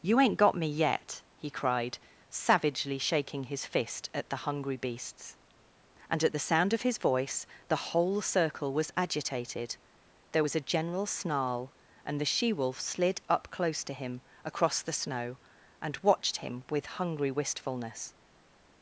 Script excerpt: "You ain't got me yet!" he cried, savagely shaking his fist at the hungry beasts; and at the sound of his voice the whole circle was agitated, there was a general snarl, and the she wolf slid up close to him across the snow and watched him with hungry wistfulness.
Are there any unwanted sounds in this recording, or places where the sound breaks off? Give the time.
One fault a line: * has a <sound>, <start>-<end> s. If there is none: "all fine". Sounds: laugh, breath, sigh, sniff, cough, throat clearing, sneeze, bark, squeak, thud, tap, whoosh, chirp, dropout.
all fine